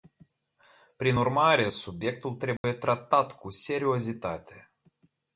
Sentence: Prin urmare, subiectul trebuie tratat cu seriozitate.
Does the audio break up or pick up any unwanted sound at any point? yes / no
yes